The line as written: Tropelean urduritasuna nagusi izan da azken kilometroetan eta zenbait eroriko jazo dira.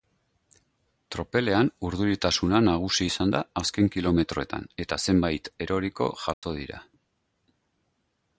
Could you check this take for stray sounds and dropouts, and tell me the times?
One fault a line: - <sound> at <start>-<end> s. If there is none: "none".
- dropout at 6.3-6.4 s